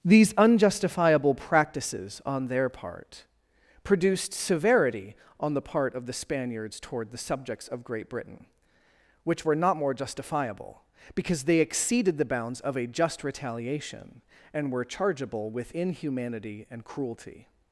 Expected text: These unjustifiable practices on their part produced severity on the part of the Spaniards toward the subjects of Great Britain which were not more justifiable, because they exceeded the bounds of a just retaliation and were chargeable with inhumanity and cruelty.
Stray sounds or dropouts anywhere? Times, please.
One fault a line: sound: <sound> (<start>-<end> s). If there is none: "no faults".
no faults